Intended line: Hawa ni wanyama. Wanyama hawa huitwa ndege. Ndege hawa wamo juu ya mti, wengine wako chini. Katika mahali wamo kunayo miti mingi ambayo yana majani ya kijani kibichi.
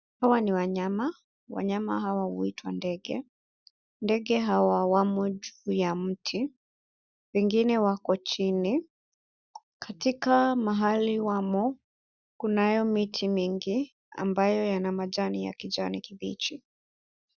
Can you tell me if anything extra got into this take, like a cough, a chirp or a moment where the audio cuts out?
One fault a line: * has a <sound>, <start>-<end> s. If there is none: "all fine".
all fine